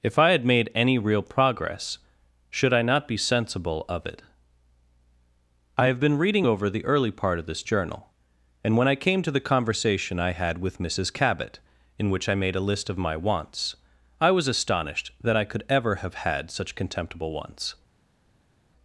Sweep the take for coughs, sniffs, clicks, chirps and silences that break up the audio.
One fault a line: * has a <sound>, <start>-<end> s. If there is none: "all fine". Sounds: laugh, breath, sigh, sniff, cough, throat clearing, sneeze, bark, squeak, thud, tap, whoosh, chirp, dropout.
all fine